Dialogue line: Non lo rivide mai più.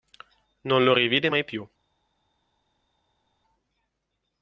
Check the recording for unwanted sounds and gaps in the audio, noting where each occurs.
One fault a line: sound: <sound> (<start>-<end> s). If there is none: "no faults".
no faults